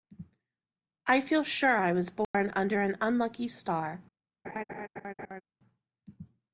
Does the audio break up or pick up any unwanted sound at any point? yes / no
yes